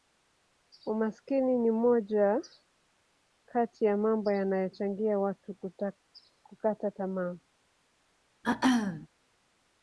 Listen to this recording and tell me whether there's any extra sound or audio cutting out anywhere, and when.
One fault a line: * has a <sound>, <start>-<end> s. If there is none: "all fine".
* has a throat clearing, 8.4-9.1 s